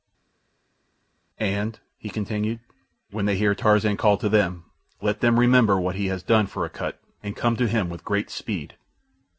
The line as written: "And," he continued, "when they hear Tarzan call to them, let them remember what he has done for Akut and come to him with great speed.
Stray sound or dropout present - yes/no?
no